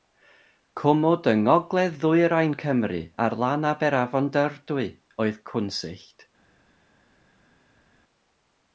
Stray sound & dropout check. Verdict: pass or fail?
pass